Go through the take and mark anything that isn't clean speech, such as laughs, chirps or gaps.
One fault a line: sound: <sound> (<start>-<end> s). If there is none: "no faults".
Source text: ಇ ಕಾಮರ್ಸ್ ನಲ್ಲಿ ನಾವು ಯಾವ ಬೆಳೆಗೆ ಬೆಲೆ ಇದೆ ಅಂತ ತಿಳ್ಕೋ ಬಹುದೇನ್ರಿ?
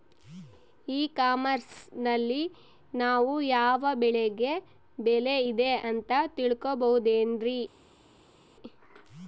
no faults